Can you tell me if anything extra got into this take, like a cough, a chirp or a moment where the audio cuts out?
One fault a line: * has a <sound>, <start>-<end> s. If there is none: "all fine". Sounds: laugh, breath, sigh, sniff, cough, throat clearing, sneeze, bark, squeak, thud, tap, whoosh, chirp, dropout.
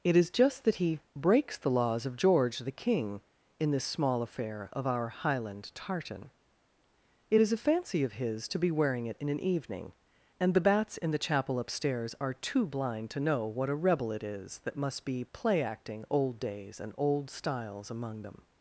all fine